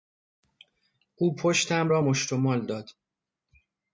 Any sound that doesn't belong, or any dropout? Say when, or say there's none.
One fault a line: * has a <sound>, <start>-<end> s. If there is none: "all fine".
all fine